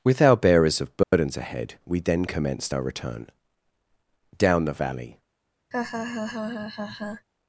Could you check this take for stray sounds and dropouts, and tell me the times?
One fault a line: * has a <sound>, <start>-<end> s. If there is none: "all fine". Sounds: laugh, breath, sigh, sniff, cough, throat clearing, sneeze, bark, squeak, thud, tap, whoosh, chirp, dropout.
* has a dropout, 1.0-1.1 s
* has a laugh, 5.7-7.3 s